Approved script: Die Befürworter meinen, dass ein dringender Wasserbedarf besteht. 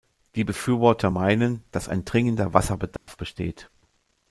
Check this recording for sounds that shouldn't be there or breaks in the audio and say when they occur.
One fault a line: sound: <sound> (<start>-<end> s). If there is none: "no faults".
sound: dropout (3.0-3.1 s)